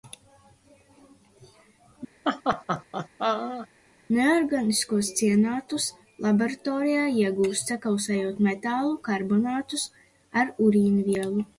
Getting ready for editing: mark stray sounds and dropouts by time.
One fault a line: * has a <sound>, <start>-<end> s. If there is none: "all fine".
* has a laugh, 2.2-3.7 s